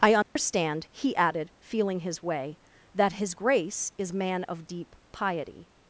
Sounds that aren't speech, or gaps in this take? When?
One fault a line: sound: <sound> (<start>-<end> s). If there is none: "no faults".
sound: dropout (0.2-0.4 s)